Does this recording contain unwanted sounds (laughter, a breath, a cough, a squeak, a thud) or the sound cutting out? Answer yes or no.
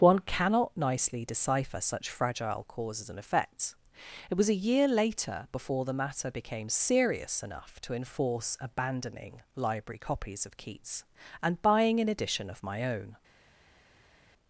no